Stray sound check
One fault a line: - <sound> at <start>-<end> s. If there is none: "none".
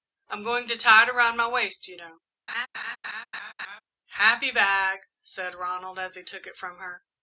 - laugh at 2.5-3.8 s